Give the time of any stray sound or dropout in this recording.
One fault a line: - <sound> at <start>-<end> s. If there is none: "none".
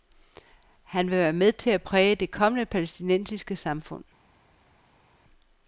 none